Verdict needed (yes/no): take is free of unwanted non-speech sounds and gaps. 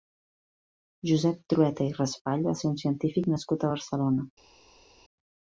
yes